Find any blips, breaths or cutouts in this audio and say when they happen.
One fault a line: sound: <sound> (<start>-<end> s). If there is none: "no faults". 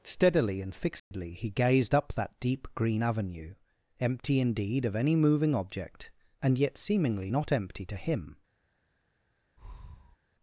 sound: dropout (1.0-1.1 s)
sound: breath (9.6-10.2 s)